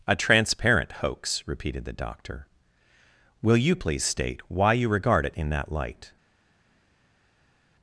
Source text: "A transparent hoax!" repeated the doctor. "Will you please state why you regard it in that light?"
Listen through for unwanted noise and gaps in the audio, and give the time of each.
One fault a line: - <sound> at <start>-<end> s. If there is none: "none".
none